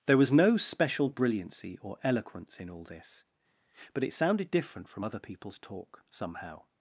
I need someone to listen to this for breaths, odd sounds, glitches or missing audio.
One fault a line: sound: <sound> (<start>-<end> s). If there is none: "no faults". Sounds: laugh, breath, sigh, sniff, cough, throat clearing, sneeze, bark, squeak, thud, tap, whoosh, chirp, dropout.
no faults